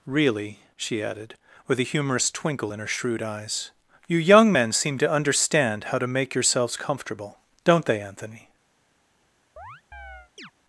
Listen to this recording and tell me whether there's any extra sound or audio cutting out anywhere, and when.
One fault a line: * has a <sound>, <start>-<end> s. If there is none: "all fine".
* has a chirp, 9.6-10.5 s